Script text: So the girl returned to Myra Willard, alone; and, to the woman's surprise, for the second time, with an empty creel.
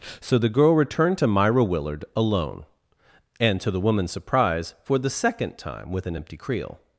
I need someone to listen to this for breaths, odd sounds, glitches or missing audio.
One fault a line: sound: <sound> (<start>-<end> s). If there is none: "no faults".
no faults